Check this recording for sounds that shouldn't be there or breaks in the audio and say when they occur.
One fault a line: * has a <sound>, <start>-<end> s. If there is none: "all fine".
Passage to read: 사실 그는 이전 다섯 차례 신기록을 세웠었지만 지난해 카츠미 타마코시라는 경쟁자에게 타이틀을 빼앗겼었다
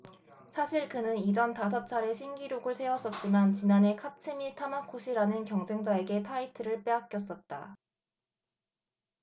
all fine